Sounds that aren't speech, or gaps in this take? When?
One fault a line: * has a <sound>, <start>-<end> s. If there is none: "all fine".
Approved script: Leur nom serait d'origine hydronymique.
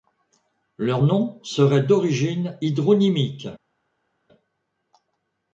all fine